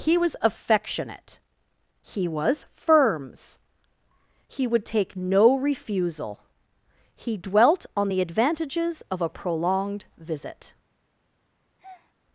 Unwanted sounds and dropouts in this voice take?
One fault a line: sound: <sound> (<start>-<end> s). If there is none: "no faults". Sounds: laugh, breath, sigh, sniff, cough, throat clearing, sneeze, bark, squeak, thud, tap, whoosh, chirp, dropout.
sound: breath (11.8-12.1 s)